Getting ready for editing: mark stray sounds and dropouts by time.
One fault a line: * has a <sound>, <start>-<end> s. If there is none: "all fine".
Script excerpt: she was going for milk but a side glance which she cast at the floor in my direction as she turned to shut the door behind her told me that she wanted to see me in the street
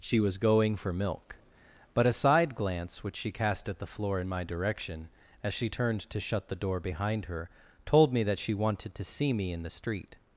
all fine